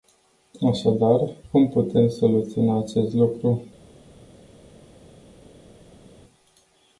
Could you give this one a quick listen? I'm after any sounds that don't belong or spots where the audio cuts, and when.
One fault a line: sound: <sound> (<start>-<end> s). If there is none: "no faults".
no faults